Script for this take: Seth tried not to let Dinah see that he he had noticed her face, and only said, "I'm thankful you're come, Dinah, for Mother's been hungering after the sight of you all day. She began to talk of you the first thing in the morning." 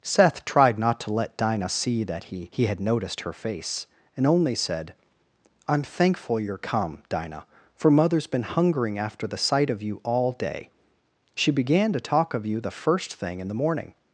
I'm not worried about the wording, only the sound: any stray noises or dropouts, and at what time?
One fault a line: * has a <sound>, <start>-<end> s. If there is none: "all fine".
all fine